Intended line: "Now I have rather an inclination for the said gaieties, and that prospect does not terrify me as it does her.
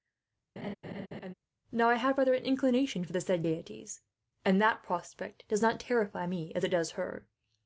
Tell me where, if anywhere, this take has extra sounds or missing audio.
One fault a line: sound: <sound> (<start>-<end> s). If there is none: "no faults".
sound: laugh (0.6-1.3 s)